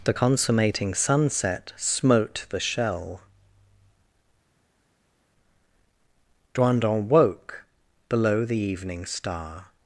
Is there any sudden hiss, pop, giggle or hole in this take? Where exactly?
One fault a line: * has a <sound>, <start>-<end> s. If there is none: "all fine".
all fine